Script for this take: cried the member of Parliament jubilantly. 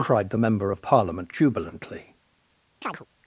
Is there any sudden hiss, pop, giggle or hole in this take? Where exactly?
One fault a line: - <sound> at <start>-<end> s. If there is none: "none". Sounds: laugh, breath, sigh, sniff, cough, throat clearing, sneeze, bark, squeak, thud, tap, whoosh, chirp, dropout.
- chirp at 2.8-3.1 s